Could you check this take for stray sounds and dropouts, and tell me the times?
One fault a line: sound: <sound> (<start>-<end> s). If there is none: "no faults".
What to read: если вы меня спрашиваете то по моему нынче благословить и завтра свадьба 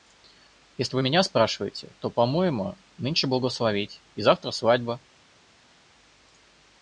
no faults